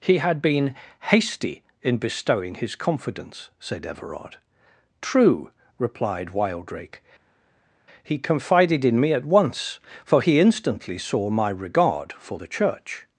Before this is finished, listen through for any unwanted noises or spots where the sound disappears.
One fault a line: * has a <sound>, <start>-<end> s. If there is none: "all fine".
all fine